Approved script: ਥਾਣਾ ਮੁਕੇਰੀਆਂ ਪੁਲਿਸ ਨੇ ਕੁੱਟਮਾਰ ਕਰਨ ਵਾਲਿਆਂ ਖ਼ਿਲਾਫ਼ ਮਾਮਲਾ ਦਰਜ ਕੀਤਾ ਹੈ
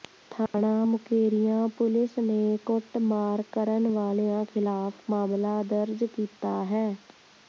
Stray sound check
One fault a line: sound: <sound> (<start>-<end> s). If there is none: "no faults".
sound: dropout (0.5-0.5 s)